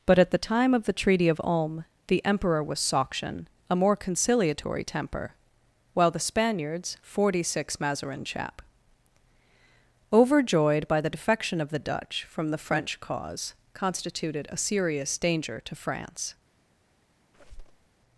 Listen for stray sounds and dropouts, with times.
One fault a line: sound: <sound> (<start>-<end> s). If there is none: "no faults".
sound: squeak (17.3-17.9 s)